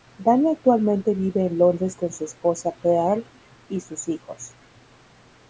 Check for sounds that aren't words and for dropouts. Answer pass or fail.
pass